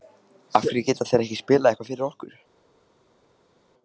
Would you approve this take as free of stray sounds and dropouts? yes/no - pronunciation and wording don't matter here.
yes